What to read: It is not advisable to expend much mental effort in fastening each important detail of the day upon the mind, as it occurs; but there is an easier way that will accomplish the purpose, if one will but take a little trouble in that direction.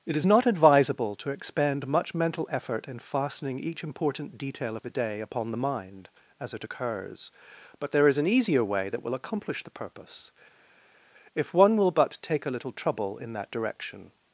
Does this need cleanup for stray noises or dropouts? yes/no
no